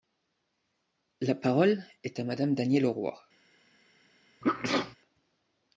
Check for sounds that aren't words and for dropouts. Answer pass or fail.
fail